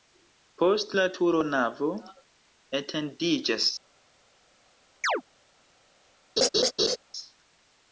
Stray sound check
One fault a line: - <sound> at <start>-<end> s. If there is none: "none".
- chirp at 5.0-5.2 s
- laugh at 6.4-7.0 s